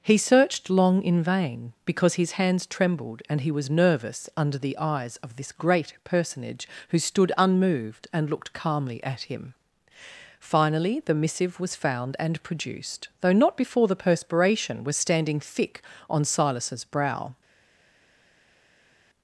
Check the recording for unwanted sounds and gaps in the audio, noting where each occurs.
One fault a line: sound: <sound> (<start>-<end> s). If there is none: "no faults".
no faults